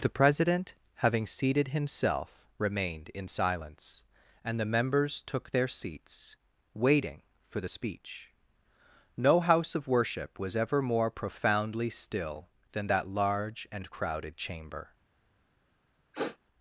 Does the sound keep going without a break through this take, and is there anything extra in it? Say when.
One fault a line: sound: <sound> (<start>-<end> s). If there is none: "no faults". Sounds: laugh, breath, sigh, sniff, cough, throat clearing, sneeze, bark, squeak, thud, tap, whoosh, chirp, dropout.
sound: sniff (16.1-16.4 s)